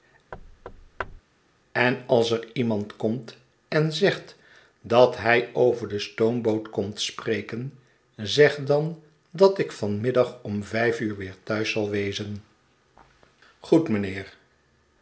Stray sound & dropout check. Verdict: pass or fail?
fail